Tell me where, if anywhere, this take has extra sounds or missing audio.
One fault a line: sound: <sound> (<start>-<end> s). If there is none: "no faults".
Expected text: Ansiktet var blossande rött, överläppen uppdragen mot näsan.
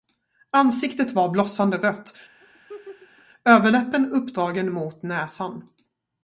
sound: laugh (2.4-3.3 s)